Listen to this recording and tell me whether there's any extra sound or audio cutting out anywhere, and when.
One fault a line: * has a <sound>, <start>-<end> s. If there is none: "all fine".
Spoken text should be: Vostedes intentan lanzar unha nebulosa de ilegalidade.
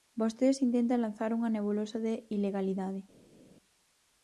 all fine